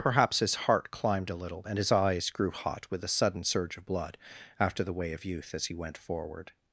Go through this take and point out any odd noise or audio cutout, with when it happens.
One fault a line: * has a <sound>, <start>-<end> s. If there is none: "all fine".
all fine